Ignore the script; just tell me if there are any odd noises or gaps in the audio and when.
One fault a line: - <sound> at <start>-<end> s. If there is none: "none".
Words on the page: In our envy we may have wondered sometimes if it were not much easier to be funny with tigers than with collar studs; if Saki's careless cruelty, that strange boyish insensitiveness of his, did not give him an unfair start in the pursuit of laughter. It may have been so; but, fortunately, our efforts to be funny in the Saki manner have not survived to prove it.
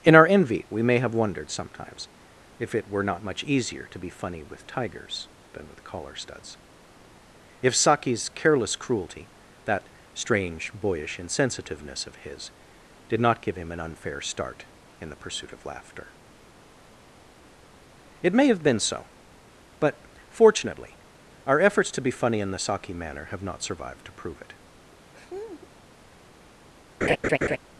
- laugh at 25.1-25.7 s
- laugh at 27.0-27.6 s